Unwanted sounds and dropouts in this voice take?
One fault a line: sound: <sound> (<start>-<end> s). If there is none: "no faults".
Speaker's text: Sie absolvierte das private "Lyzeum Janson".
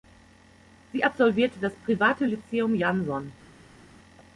no faults